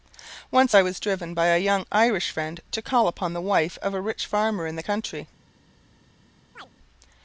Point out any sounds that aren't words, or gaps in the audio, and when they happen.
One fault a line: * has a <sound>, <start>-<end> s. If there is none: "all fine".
* has a chirp, 6.6-6.7 s